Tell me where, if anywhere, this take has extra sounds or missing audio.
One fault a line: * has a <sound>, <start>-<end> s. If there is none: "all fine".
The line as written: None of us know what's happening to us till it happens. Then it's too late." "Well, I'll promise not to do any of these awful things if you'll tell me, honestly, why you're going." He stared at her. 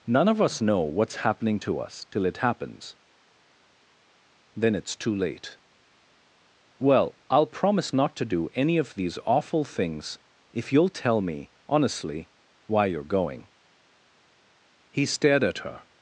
all fine